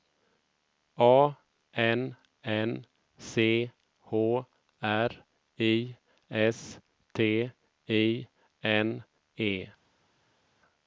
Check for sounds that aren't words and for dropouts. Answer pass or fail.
pass